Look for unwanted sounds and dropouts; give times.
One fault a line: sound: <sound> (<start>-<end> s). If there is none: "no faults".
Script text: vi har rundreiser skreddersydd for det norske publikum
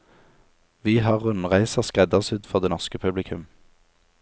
no faults